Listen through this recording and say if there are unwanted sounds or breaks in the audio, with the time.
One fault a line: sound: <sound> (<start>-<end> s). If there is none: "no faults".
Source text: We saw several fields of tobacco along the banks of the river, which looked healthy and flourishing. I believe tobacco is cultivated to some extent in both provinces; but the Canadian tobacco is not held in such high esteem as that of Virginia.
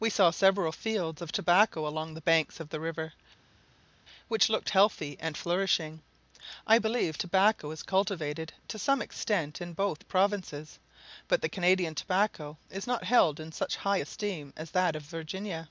no faults